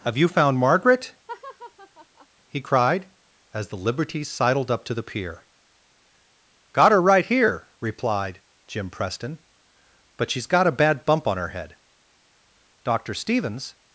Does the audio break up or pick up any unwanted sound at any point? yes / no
yes